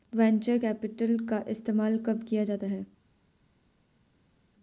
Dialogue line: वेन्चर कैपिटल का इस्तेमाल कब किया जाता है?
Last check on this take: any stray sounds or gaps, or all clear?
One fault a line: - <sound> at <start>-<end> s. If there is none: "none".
none